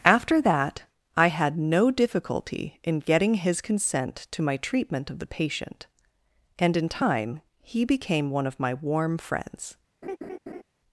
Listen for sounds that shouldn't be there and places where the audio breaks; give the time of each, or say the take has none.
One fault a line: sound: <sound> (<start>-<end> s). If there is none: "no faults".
sound: laugh (10.0-10.6 s)